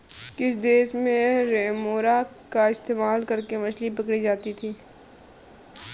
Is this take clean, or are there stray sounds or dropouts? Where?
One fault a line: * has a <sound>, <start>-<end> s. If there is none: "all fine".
all fine